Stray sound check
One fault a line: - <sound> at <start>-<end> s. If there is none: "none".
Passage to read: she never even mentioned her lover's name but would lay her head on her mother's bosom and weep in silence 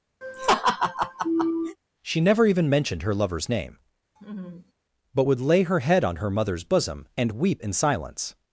- laugh at 0.2-1.8 s
- laugh at 4.2-4.7 s